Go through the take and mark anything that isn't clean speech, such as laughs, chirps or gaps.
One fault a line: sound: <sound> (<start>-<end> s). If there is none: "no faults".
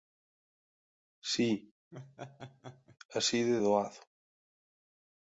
sound: laugh (1.9-3.0 s)